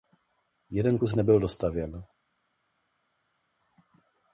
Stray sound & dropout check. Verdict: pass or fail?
pass